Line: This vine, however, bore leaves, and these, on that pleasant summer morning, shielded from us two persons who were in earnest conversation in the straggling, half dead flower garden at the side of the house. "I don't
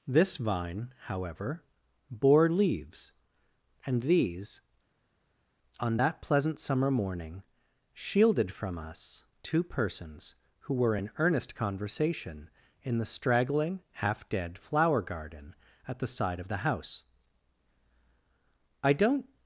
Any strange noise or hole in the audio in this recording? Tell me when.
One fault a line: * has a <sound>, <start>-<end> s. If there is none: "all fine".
all fine